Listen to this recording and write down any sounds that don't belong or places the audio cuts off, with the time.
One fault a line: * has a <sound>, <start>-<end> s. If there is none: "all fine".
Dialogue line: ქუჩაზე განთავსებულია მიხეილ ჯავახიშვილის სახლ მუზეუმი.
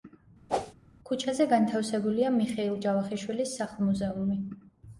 * has a whoosh, 0.5-0.7 s